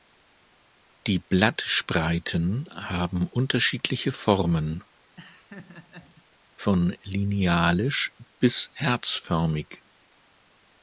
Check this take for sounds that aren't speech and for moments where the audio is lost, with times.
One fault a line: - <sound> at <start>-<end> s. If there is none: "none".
- laugh at 5.2-6.2 s